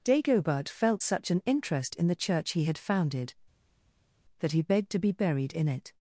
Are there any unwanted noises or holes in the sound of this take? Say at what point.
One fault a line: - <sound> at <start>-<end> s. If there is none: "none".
none